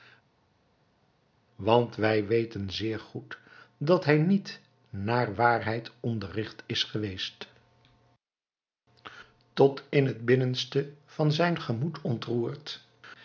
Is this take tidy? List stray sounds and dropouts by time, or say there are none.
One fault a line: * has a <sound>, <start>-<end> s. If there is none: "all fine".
all fine